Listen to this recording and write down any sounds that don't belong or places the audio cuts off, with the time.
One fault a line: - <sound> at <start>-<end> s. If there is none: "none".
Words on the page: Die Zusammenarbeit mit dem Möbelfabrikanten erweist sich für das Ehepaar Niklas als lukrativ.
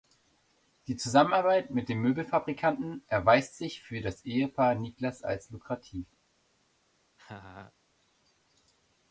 - laugh at 7.2-7.7 s